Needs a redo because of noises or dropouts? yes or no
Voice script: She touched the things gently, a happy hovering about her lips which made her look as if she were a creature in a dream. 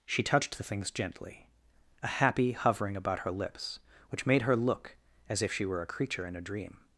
no